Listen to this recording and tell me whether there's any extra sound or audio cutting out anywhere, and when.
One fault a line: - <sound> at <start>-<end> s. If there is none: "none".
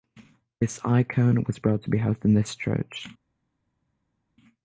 none